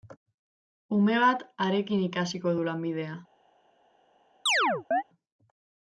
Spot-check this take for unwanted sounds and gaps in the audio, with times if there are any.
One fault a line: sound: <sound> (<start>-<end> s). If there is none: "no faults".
sound: chirp (4.5-5.0 s)